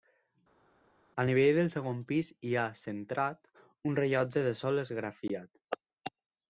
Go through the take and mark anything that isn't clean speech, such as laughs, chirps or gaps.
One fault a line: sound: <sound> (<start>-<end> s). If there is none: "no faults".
no faults